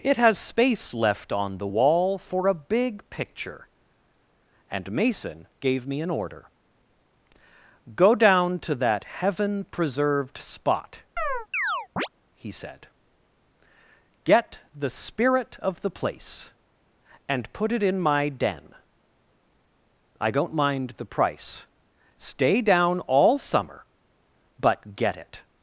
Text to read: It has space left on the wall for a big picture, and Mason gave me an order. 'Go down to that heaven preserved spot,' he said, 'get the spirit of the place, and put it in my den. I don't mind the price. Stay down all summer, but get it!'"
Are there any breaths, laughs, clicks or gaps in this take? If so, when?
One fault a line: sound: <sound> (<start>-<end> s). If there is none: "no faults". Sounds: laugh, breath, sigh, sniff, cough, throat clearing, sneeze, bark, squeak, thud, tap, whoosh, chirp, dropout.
sound: chirp (11.2-12.1 s)